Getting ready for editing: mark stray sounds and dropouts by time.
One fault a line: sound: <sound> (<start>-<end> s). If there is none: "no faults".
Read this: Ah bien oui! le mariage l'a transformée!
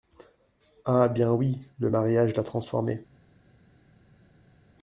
no faults